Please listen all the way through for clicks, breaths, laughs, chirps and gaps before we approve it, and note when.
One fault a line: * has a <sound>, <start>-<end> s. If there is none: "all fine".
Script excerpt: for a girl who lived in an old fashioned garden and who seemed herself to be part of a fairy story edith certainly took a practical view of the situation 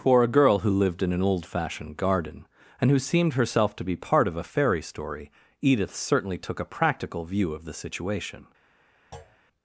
* has a thud, 9.1-9.4 s